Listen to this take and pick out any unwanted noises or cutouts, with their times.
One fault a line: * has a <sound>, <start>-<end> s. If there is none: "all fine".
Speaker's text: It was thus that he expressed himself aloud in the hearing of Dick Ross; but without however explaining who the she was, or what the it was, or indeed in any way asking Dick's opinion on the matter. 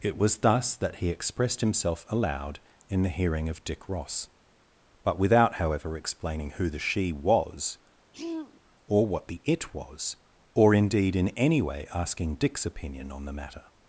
* has a throat clearing, 8.1-8.6 s